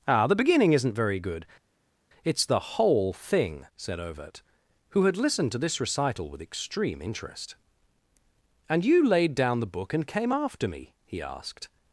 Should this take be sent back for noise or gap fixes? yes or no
no